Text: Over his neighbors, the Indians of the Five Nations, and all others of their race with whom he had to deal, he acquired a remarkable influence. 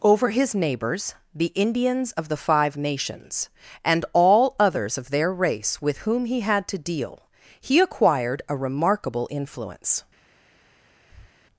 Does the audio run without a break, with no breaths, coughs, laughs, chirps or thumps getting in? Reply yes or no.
no